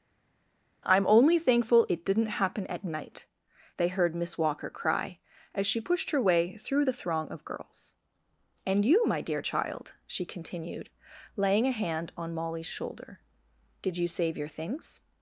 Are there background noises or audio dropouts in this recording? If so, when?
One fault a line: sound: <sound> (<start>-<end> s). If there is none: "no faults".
no faults